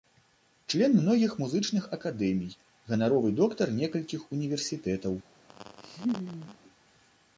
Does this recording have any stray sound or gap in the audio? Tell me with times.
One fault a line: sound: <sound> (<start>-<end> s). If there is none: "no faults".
sound: laugh (5.5-6.6 s)